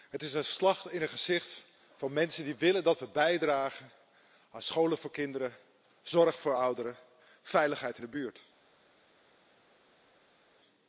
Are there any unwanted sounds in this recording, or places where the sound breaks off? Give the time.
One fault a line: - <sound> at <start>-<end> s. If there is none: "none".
none